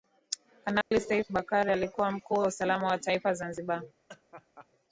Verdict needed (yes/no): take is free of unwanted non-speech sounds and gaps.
no